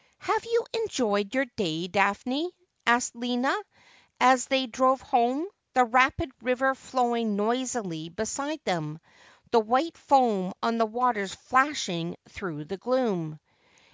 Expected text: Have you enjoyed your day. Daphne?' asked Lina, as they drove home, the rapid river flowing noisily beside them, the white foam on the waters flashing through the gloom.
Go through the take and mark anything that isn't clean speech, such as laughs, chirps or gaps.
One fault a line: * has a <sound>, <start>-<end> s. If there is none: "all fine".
all fine